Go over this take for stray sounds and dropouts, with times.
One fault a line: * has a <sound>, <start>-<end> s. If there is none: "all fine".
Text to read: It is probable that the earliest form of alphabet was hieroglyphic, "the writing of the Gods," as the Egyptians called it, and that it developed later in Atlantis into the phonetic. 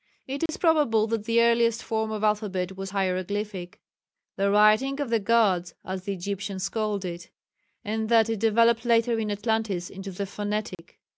* has a dropout, 0.5-0.5 s
* has a dropout, 10.7-10.8 s